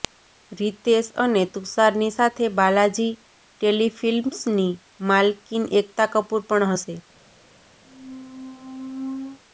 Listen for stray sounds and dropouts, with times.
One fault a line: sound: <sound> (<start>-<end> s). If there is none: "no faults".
sound: squeak (7.8-9.4 s)